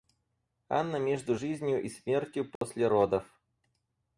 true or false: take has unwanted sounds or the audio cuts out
true